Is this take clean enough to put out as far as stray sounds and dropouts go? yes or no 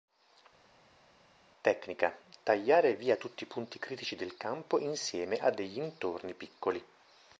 yes